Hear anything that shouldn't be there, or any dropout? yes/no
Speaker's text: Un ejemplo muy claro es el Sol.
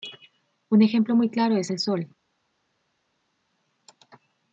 no